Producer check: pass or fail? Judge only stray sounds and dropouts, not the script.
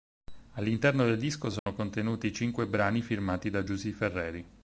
fail